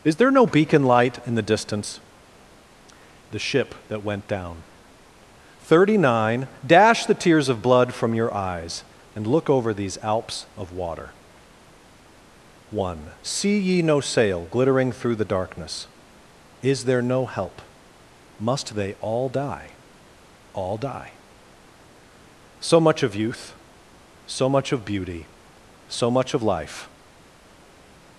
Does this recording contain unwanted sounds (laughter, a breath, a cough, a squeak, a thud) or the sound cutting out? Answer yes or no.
no